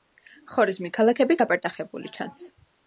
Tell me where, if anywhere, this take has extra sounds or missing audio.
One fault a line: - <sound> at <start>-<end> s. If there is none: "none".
none